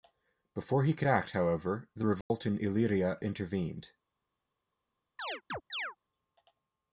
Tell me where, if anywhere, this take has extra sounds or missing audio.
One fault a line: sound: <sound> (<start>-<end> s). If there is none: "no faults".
sound: dropout (2.2-2.3 s)
sound: chirp (5.2-6.0 s)